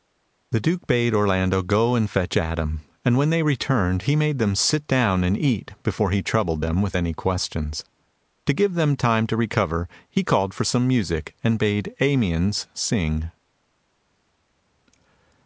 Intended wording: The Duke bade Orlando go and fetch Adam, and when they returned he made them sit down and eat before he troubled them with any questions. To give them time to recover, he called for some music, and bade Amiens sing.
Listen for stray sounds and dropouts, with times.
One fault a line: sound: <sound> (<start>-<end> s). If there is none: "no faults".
no faults